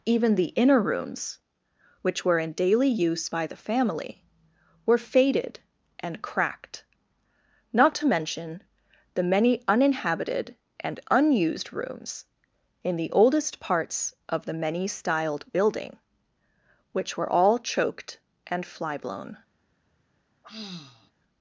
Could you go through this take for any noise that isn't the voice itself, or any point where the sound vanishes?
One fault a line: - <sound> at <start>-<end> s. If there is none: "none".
- sigh at 20.4-21.1 s